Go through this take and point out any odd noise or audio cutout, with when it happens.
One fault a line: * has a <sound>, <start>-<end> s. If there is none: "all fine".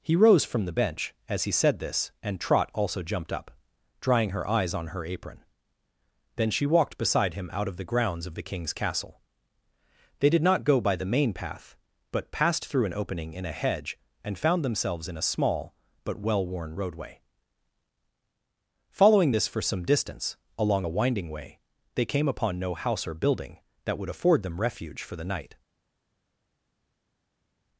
all fine